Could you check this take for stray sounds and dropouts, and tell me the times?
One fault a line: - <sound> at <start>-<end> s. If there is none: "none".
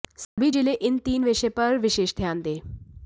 - dropout at 0.2-0.4 s